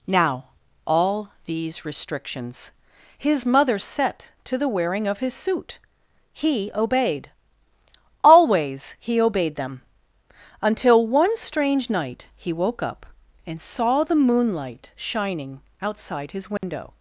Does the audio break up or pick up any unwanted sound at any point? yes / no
yes